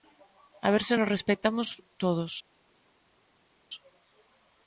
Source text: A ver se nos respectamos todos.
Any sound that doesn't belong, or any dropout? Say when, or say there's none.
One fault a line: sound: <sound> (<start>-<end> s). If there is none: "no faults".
no faults